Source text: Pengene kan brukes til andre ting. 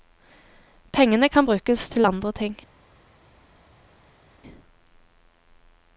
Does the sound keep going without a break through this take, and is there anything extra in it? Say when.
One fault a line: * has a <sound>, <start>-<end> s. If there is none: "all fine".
all fine